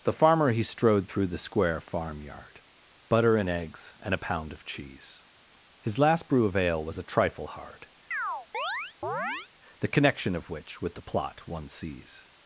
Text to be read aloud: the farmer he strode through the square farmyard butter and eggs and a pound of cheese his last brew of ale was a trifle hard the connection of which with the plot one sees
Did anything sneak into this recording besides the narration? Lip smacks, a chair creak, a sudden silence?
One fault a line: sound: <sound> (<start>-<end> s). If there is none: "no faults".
sound: chirp (8.1-9.5 s)